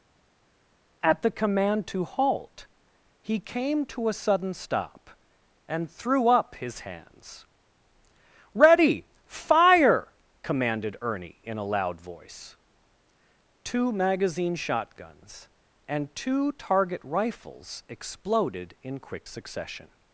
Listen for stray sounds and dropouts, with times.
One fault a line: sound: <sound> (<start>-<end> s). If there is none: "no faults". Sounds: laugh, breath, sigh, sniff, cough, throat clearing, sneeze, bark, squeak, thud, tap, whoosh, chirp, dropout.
no faults